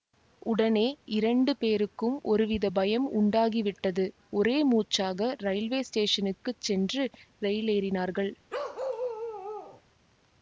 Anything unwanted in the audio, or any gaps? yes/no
yes